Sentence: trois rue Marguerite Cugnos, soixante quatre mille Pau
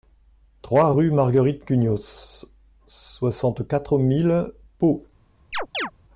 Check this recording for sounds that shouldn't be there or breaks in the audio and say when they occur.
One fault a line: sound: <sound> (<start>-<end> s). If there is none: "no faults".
sound: chirp (5.5-5.9 s)